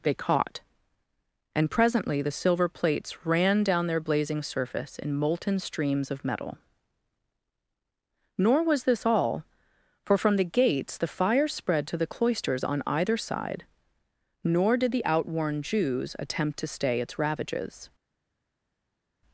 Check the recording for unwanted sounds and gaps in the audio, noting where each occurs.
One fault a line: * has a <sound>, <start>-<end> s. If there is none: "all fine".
all fine